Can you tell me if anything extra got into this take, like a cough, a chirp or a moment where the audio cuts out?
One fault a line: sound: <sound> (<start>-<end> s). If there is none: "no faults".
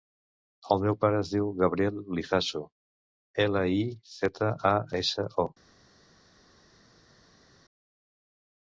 no faults